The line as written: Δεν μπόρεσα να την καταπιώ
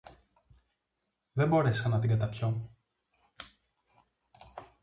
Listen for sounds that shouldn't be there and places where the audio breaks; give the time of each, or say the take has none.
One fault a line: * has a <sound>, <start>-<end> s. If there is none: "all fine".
all fine